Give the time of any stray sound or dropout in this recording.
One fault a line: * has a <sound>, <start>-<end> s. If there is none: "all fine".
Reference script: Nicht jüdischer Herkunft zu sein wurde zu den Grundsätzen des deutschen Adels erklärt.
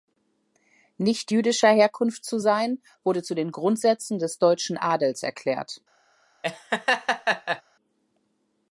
* has a laugh, 6.4-7.6 s